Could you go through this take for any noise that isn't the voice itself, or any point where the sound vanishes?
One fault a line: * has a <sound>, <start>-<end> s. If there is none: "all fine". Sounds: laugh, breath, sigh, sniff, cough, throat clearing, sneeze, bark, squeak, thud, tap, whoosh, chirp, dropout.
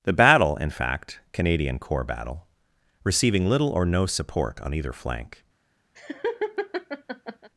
* has a laugh, 6.0-7.5 s